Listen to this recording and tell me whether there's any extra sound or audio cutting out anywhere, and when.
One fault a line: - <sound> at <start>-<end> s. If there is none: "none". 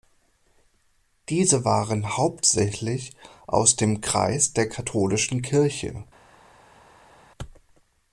none